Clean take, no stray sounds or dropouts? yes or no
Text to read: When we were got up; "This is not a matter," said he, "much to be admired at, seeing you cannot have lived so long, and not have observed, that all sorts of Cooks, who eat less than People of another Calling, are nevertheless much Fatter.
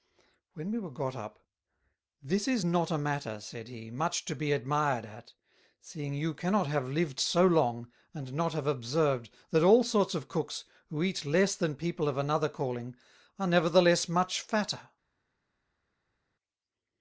yes